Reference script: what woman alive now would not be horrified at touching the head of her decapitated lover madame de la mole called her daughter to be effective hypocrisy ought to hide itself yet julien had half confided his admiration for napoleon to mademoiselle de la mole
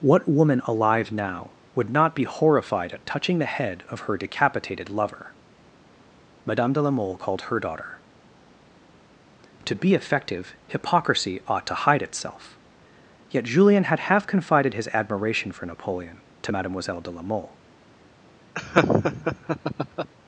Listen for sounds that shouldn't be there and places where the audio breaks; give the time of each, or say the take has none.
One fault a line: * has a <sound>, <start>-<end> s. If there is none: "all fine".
* has a laugh, 18.6-20.1 s